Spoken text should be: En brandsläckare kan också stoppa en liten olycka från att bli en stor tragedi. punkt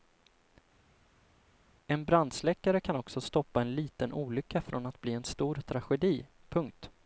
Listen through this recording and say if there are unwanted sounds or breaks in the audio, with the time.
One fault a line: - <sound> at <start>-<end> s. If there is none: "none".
none